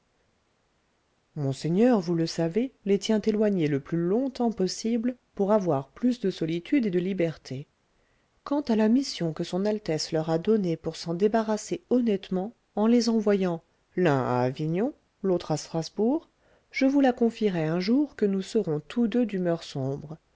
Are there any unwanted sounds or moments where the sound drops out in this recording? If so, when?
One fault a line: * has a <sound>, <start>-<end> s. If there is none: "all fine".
all fine